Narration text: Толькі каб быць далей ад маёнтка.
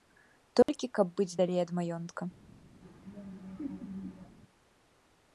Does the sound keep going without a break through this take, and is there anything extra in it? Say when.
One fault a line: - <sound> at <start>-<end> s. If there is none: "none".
- dropout at 0.6-0.7 s
- laugh at 2.8-4.4 s